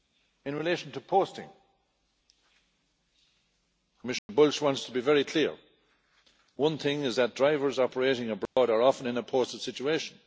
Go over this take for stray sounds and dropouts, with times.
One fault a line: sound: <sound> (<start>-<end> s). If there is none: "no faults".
sound: dropout (4.2-4.3 s)
sound: dropout (8.5-8.6 s)